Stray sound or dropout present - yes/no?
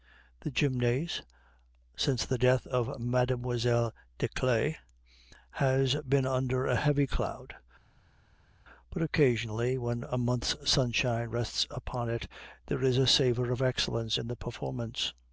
no